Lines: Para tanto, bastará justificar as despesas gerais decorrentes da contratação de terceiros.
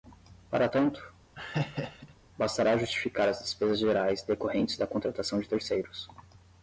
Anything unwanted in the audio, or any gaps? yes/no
yes